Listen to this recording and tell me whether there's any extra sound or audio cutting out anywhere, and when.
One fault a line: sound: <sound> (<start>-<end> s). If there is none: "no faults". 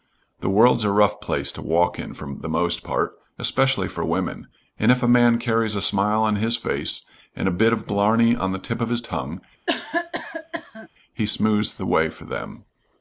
sound: cough (9.7-10.9 s)